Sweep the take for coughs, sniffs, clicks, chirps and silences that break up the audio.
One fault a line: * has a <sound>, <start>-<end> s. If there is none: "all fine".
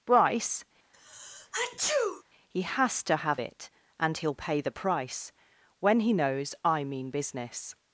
* has a sneeze, 0.9-2.2 s